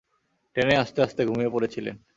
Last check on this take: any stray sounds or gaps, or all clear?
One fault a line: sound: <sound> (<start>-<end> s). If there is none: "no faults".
no faults